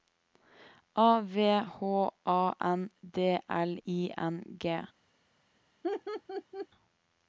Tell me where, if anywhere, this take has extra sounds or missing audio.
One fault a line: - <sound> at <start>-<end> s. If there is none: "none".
- laugh at 5.8-6.7 s